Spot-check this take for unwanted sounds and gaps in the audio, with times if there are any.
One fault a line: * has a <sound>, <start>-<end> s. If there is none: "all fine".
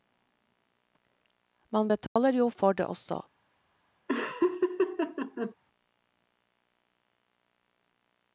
* has a dropout, 2.1-2.2 s
* has a laugh, 4.1-5.5 s